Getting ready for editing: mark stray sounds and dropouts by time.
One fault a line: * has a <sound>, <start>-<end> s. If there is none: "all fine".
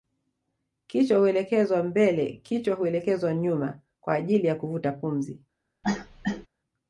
* has a cough, 5.8-6.5 s